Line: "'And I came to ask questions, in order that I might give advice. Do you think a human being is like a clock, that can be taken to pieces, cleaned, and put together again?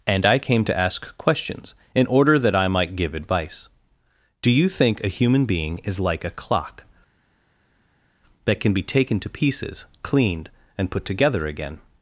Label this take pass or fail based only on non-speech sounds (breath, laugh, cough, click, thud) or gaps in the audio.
pass